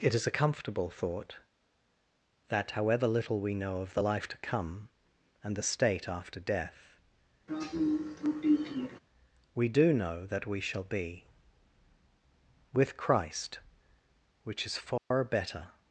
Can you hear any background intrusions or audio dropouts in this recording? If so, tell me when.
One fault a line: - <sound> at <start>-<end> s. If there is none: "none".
- throat clearing at 7.5-9.0 s
- dropout at 15.0-15.1 s